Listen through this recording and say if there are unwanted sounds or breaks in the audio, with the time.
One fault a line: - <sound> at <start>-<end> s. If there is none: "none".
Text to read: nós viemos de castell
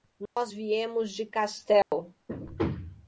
- dropout at 0.3-0.4 s
- dropout at 1.8-1.9 s